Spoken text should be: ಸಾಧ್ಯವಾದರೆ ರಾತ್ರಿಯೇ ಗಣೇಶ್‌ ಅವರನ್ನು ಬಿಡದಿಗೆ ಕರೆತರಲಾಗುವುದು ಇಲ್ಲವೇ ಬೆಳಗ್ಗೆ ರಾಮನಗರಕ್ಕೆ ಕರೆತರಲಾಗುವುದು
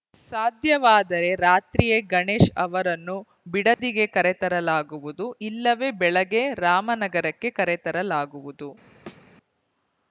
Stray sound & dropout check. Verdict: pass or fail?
fail